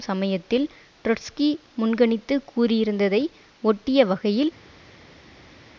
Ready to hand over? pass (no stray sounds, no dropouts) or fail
pass